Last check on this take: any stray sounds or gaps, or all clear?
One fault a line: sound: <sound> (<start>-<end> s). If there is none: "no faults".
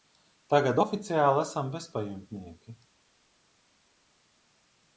no faults